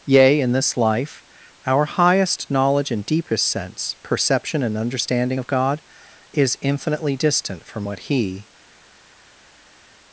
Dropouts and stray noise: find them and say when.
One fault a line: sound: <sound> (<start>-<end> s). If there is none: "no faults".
no faults